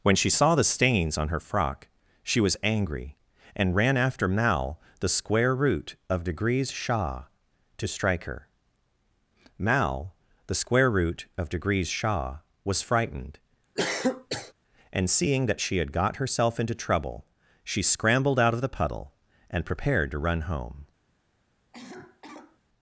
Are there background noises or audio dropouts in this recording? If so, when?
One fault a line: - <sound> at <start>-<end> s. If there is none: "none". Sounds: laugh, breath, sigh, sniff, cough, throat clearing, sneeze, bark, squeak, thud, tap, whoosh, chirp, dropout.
- cough at 13.8-14.5 s
- cough at 21.7-22.6 s